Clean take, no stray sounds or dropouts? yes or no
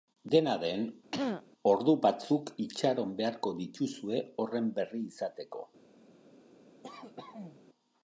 no